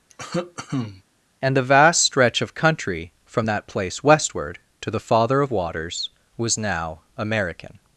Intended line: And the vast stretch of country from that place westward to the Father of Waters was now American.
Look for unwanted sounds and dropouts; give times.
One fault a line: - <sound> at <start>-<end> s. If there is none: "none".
- cough at 0.1-1.0 s